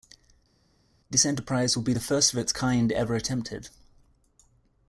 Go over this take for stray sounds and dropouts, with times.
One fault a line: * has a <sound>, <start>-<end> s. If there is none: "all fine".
all fine